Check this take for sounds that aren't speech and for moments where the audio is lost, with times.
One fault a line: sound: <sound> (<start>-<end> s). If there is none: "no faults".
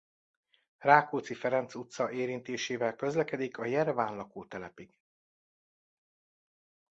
no faults